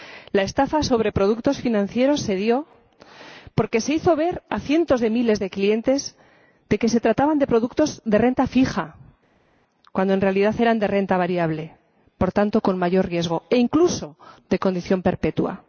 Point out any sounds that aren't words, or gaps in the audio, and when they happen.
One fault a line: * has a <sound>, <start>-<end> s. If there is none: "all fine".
all fine